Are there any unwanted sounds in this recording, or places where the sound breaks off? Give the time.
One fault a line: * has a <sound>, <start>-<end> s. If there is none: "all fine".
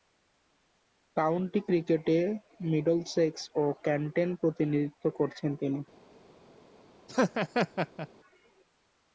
* has a laugh, 7.1-8.1 s